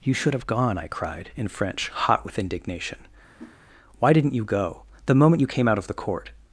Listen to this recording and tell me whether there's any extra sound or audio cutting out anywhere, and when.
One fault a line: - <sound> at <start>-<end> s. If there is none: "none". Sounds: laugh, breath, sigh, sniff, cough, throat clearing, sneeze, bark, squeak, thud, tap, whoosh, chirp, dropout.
- whoosh at 3.4-3.6 s